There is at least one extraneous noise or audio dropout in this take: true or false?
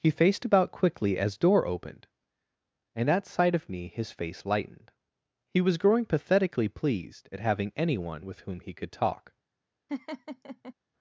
true